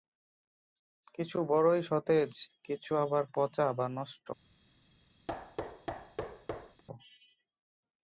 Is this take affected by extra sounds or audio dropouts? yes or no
yes